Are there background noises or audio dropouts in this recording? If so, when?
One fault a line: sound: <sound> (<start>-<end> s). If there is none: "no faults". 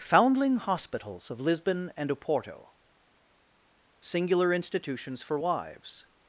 no faults